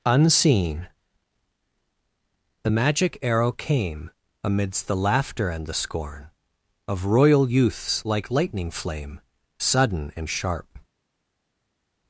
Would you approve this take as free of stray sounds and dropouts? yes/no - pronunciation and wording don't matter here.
yes